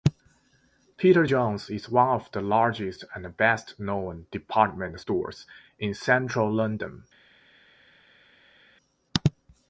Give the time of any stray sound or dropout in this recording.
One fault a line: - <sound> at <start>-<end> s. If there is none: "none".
none